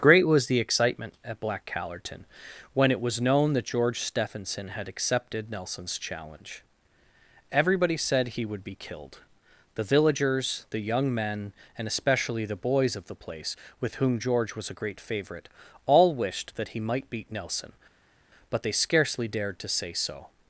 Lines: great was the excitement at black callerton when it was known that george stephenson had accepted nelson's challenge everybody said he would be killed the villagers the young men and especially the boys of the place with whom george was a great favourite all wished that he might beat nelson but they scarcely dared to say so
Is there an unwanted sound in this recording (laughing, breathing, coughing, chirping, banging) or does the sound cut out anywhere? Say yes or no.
no